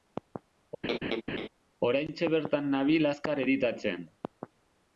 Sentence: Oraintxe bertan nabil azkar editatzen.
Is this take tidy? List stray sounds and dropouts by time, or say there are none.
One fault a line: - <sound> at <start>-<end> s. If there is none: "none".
- laugh at 0.8-1.5 s